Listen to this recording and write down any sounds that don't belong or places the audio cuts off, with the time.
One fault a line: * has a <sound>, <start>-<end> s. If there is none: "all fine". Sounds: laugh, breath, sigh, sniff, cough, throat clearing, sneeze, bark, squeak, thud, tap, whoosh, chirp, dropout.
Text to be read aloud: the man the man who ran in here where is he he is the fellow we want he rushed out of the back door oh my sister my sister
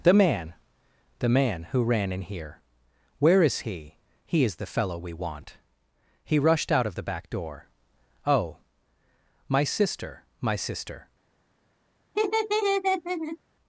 * has a laugh, 12.1-13.4 s